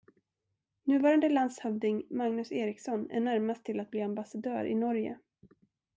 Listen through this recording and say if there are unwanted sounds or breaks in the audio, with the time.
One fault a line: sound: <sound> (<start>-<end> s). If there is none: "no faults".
no faults